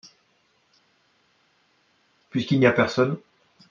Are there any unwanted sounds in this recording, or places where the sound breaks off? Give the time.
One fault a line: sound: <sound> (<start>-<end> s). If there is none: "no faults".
no faults